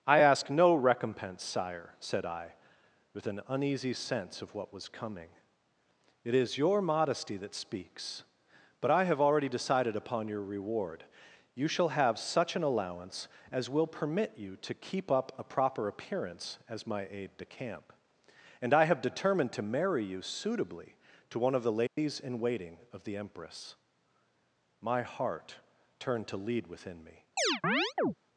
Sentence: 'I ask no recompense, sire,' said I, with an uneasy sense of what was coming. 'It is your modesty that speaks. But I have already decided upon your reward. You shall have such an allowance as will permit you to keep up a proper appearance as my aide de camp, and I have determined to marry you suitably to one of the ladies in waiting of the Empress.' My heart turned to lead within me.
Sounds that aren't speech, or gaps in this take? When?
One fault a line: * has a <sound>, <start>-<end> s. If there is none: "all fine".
* has a dropout, 21.9-22.0 s
* has a chirp, 27.4-28.1 s